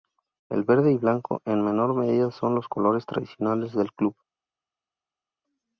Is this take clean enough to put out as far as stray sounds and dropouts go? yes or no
yes